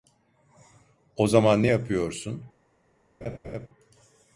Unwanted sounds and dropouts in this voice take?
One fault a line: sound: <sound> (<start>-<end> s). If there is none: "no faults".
sound: laugh (3.2-3.7 s)